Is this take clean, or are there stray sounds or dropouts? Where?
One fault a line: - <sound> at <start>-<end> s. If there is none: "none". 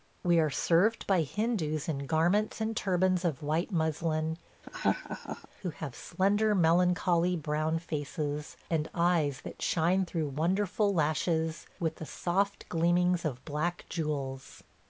- laugh at 4.6-5.5 s